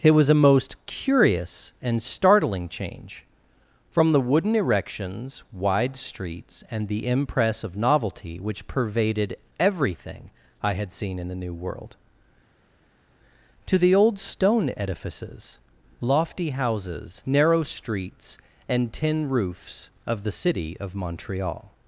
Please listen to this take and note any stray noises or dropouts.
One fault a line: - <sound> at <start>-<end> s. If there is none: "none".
none